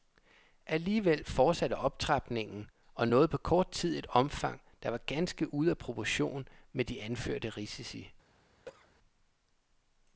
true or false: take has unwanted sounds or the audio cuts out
true